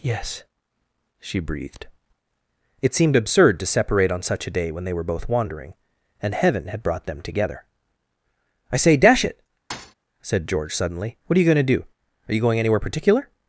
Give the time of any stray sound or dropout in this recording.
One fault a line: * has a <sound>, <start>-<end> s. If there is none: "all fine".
* has a thud, 9.7-9.9 s